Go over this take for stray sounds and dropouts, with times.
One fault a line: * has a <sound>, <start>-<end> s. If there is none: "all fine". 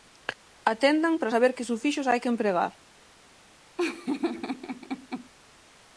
* has a laugh, 3.8-5.3 s